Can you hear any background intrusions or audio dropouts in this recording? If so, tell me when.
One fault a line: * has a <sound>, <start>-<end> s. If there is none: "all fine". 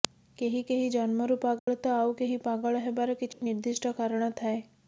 * has a dropout, 1.6-1.7 s
* has a dropout, 3.3-3.4 s